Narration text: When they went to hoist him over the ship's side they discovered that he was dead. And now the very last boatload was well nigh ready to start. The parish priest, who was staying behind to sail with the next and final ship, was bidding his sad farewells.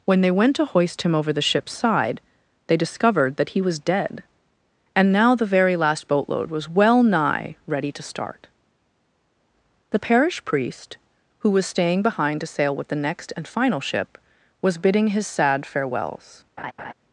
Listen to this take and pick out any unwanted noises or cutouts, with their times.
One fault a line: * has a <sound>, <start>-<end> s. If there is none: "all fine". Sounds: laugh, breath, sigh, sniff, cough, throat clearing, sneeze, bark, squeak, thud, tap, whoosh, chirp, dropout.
* has a laugh, 16.6-16.9 s